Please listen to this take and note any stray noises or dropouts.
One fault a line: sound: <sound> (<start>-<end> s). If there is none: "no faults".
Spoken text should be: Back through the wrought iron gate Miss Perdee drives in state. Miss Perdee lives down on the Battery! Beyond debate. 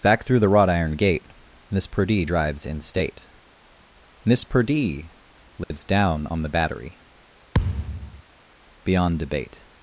sound: dropout (5.6-5.7 s)
sound: thud (7.5-8.2 s)